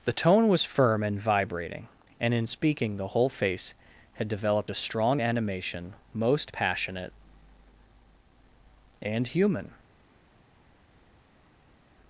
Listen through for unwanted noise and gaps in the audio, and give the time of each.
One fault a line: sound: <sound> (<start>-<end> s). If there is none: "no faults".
no faults